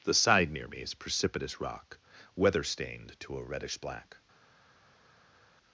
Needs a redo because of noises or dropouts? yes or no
no